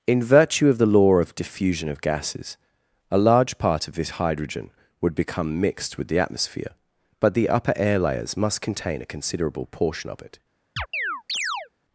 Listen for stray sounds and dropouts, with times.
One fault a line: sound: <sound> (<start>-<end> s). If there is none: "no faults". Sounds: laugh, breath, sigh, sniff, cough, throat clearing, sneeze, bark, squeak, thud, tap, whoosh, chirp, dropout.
sound: chirp (10.8-11.7 s)